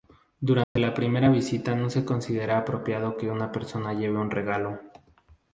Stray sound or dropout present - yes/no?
yes